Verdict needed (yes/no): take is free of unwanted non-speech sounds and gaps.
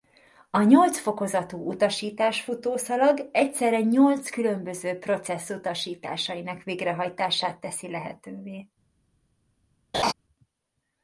no